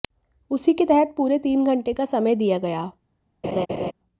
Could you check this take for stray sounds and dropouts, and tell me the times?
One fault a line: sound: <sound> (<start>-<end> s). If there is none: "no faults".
sound: laugh (3.4-3.9 s)